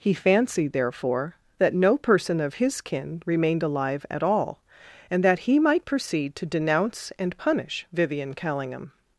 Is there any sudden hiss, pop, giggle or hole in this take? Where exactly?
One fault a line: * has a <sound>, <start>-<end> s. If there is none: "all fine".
all fine